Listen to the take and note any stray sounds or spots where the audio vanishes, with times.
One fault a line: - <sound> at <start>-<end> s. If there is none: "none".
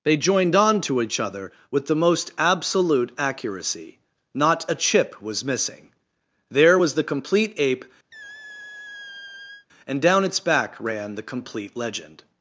- squeak at 8.1-9.7 s